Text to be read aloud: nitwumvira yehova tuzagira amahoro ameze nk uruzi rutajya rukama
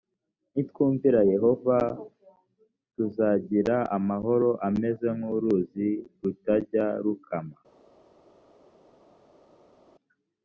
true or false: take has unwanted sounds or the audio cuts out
false